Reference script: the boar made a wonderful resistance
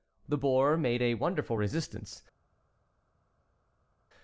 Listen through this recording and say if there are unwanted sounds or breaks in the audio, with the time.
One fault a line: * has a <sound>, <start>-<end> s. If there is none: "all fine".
all fine